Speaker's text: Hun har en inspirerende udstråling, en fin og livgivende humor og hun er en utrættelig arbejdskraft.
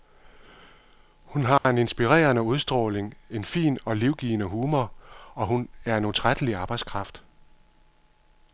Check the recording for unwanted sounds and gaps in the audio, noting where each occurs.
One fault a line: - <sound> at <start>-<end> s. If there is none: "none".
- dropout at 1.6-1.6 s